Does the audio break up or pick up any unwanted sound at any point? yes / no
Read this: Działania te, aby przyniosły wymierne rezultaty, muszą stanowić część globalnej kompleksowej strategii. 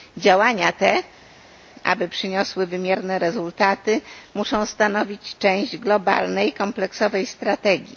no